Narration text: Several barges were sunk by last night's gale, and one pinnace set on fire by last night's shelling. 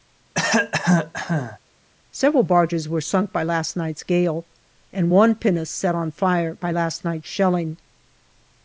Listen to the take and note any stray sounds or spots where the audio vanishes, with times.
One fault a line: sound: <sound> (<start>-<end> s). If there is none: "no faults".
sound: cough (0.3-1.6 s)